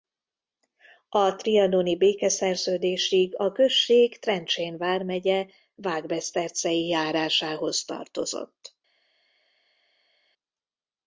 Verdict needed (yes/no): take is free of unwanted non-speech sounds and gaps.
yes